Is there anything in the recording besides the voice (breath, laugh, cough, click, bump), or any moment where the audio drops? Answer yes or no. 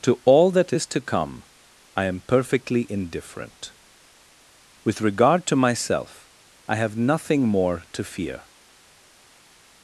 no